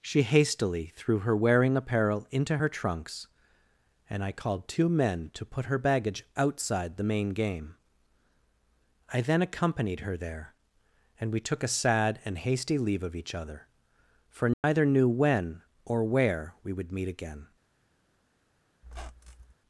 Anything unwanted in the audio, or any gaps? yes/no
yes